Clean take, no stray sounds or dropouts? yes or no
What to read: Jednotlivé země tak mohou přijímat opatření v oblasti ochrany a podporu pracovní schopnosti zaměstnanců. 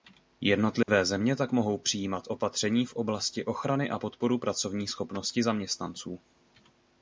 no